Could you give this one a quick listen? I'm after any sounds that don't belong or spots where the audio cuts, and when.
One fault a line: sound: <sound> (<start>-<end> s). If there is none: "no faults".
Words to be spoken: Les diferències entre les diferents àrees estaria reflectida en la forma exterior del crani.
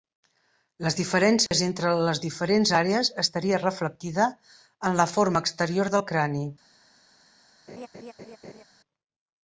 sound: dropout (1.5-1.5 s)
sound: laugh (7.7-8.6 s)